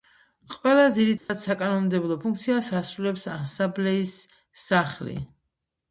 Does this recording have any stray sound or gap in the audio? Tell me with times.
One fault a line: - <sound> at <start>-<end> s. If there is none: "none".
- dropout at 1.2-1.3 s